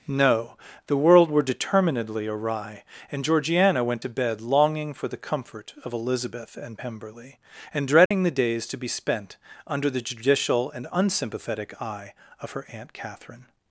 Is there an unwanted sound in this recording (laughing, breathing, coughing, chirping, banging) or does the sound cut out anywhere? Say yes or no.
yes